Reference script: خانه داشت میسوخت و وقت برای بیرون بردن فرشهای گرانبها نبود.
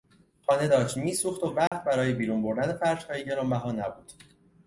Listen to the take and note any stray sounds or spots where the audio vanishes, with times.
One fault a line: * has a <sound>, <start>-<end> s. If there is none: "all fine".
* has a dropout, 1.7-1.7 s